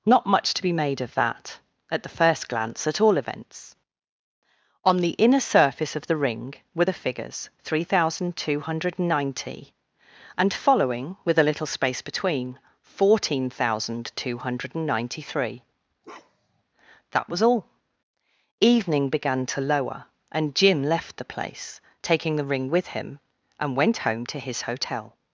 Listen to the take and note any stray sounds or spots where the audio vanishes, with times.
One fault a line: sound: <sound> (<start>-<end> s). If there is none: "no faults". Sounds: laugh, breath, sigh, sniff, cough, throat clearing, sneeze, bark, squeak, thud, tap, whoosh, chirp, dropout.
sound: bark (16.0-16.6 s)